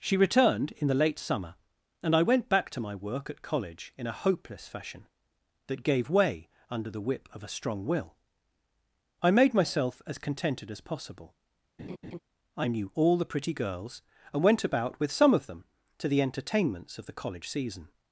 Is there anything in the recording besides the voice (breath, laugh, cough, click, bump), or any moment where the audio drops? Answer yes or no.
yes